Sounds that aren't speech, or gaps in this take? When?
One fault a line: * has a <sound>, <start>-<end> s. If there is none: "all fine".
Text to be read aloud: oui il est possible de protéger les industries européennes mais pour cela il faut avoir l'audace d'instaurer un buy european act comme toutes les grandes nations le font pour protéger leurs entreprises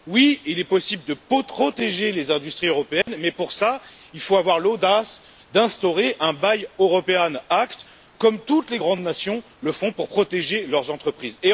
* has a dropout, 3.0-3.1 s